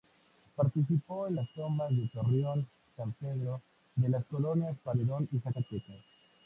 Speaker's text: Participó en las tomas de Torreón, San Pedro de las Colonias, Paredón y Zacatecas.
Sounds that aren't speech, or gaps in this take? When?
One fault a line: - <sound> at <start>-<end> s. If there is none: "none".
none